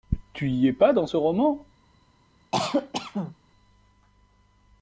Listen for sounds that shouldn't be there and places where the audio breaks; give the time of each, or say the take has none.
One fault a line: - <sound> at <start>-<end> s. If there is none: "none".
- cough at 2.5-3.4 s